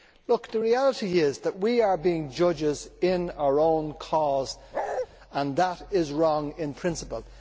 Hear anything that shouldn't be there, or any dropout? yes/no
yes